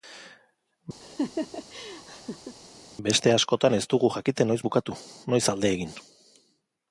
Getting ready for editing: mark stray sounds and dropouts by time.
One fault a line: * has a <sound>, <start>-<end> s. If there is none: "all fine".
* has a laugh, 1.0-2.6 s